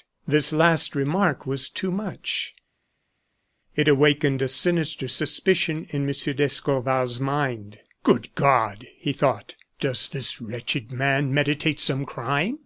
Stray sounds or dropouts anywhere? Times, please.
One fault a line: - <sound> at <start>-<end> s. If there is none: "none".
none